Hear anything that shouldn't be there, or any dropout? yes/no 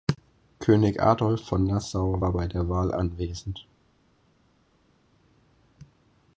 no